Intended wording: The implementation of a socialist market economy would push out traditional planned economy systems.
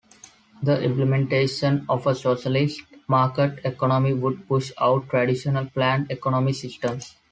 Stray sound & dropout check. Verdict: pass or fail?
pass